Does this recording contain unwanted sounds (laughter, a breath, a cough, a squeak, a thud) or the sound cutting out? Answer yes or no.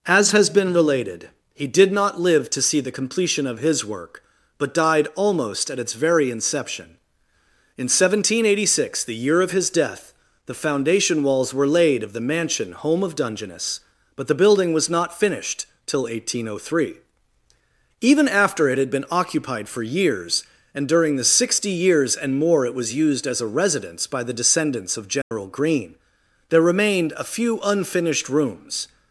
yes